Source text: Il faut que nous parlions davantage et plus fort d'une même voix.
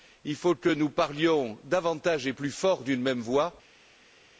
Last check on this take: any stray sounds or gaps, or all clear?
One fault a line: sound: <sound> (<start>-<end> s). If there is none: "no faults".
no faults